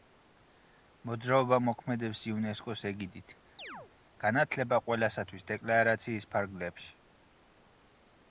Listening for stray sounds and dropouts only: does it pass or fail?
fail